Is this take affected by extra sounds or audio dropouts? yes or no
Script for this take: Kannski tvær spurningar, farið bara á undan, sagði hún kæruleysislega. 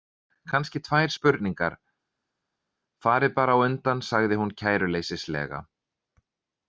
no